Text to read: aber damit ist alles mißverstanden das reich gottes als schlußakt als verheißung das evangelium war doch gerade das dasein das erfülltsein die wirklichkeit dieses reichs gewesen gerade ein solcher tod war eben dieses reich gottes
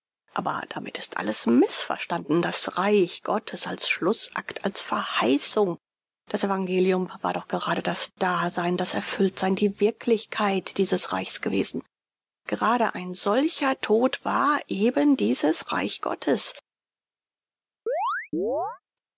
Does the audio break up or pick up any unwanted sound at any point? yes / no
yes